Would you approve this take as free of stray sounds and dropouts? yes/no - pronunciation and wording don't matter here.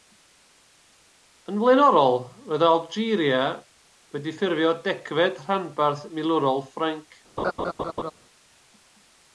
no